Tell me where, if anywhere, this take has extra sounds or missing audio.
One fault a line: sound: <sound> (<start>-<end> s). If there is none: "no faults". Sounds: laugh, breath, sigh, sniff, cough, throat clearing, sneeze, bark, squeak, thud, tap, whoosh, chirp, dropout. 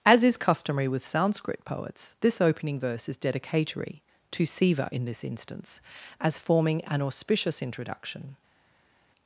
no faults